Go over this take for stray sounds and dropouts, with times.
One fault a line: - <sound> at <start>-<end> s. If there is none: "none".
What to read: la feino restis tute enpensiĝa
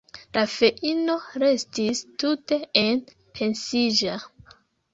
none